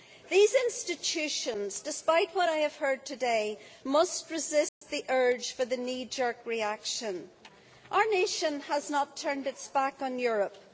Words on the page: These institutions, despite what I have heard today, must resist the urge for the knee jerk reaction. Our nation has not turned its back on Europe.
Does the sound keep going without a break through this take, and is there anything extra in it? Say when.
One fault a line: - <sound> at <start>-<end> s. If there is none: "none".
- dropout at 4.7-4.8 s